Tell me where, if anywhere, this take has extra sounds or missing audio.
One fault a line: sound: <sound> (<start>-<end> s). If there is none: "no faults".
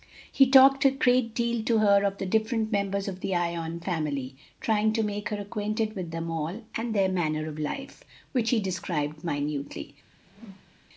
sound: whoosh (10.2-10.8 s)